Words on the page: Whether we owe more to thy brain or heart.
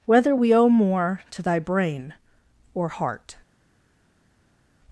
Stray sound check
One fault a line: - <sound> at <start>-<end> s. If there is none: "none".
none